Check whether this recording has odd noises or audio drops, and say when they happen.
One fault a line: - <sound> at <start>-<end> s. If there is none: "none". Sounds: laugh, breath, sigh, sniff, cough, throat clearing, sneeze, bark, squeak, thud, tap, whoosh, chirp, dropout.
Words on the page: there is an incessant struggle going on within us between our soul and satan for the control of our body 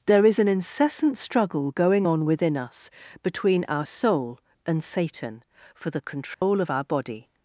- dropout at 6.3-6.4 s